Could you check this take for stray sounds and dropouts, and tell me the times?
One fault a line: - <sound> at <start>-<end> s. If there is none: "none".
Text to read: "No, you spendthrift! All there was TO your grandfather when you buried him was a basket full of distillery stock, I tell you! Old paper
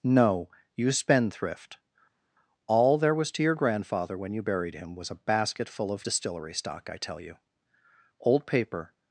none